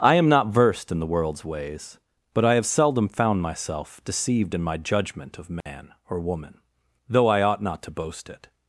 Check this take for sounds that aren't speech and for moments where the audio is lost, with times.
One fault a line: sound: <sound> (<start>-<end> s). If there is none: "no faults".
sound: dropout (5.6-5.7 s)